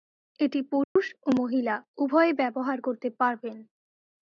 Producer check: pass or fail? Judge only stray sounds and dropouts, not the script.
fail